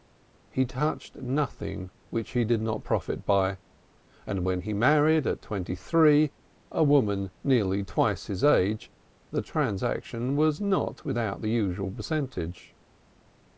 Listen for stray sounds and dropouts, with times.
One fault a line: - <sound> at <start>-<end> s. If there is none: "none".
none